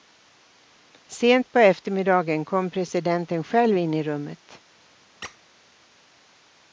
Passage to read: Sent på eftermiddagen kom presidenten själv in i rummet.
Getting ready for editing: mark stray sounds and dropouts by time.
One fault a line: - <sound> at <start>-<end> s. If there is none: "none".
- squeak at 5.2-5.4 s